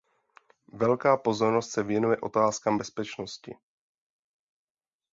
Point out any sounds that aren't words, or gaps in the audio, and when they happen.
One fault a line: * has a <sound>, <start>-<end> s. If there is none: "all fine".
all fine